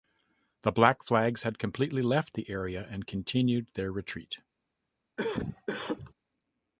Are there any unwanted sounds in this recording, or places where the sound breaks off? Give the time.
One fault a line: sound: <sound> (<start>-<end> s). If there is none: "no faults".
sound: cough (5.2-6.1 s)